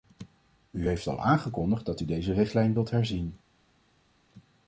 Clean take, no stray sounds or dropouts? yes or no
yes